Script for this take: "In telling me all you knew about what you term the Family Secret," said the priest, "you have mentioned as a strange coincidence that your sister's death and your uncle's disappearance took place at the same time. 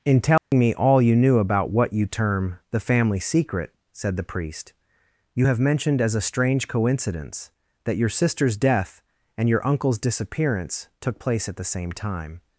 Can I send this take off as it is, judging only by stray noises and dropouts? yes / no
no